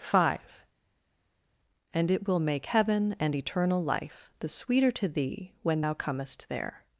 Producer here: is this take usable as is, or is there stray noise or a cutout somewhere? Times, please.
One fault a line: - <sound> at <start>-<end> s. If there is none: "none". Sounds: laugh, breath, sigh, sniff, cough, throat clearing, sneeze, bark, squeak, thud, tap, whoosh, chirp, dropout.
none